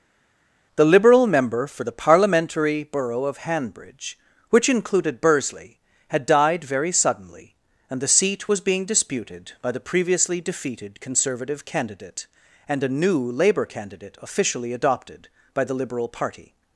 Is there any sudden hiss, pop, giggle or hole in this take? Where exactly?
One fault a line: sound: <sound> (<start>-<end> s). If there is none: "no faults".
no faults